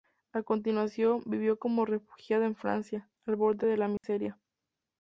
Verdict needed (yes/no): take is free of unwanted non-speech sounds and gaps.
no